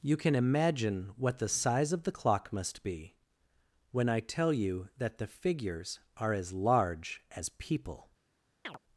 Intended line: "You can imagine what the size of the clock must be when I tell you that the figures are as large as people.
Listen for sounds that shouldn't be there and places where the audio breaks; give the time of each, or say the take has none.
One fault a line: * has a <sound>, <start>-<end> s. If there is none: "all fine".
* has a chirp, 8.6-8.8 s